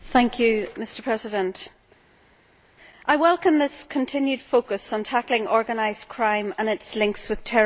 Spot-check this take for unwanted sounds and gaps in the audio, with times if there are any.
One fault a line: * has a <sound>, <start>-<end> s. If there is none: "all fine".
all fine